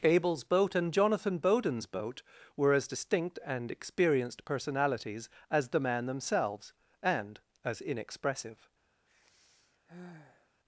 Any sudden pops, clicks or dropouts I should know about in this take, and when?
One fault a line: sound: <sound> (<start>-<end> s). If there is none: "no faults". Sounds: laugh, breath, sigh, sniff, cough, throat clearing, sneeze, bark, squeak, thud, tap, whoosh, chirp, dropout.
sound: sigh (9.1-10.5 s)